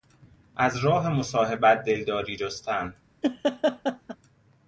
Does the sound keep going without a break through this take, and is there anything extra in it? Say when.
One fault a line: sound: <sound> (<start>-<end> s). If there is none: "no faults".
sound: laugh (3.2-4.2 s)